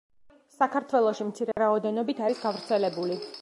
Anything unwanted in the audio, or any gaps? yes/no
yes